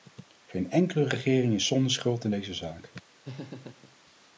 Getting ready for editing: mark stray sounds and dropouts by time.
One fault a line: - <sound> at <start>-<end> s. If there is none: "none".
- laugh at 3.2-4.0 s